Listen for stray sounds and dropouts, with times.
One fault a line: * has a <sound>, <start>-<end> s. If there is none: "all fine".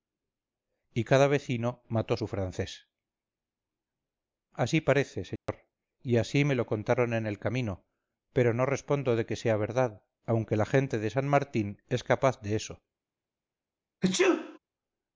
* has a dropout, 5.4-5.5 s
* has a sneeze, 14.0-14.6 s